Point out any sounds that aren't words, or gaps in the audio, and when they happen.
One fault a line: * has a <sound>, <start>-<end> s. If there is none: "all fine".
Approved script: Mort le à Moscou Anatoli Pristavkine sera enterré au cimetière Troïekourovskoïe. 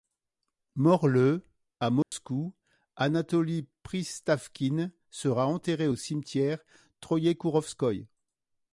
* has a dropout, 2.0-2.1 s